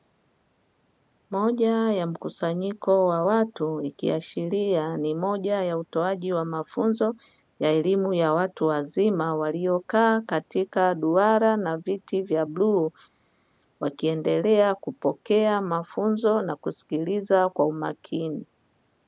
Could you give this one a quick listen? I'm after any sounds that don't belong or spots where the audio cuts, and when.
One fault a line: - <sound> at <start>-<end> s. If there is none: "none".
none